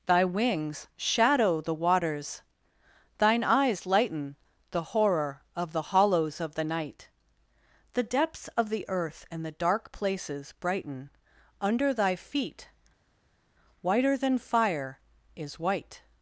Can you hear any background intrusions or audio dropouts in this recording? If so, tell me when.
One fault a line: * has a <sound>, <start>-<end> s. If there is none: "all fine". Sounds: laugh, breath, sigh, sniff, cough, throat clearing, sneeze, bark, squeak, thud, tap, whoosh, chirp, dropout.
all fine